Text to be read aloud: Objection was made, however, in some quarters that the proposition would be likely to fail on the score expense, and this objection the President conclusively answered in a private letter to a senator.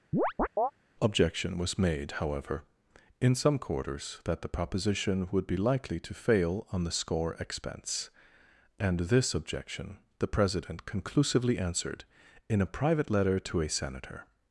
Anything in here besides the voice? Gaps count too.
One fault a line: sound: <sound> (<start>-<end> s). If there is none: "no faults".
sound: chirp (0.1-0.7 s)